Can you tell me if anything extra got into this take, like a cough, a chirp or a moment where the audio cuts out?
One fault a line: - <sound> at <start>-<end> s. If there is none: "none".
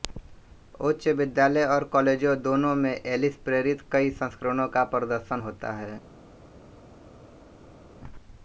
none